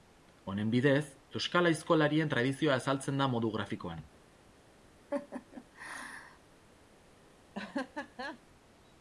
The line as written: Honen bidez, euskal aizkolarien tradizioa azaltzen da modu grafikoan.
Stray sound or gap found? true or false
true